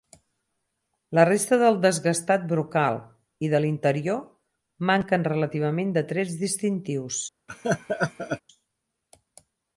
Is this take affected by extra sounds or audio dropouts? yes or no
yes